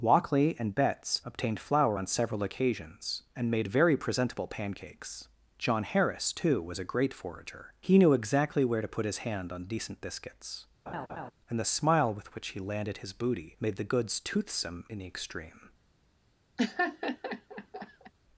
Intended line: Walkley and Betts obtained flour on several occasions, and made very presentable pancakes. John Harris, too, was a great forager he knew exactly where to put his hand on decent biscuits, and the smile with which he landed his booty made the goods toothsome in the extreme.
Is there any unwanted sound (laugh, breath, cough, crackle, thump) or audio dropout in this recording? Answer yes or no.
yes